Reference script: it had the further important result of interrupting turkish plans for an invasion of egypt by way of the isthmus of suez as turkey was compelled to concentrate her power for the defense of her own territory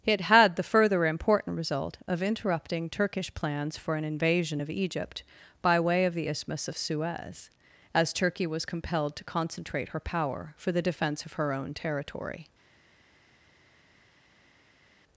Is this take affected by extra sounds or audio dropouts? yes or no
no